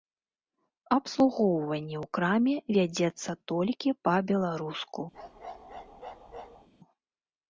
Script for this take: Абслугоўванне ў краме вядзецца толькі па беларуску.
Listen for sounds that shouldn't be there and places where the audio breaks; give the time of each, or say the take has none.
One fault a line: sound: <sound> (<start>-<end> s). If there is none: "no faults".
sound: bark (5.1-6.7 s)